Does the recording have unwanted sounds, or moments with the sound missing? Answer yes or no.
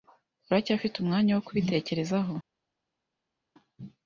no